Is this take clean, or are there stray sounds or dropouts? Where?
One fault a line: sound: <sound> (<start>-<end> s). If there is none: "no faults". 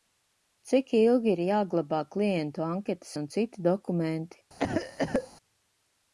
sound: cough (4.6-5.3 s)